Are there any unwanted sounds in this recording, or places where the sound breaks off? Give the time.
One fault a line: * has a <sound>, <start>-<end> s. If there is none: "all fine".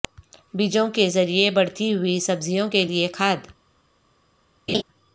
* has a laugh, 4.7-4.8 s